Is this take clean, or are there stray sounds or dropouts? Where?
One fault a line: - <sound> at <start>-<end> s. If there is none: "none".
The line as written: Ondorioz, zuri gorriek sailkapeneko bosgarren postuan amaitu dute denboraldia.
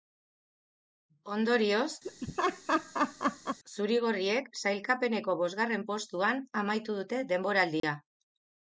- laugh at 2.0-3.6 s
- dropout at 7.8-7.8 s